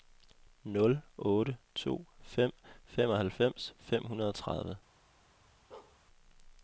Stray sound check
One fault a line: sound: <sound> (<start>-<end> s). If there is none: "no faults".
sound: bark (5.7-6.0 s)